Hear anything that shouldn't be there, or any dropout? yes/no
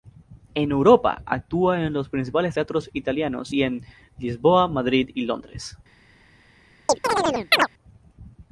yes